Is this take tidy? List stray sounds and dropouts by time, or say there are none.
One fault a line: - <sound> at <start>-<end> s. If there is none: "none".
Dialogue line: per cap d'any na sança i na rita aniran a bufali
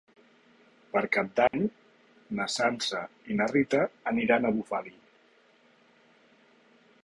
- dropout at 1.5-1.5 s